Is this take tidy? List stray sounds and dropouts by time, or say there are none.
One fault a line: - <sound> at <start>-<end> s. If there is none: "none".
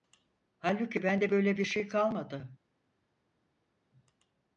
none